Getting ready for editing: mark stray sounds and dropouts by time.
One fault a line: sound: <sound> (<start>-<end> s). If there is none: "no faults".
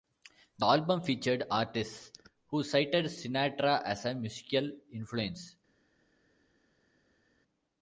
no faults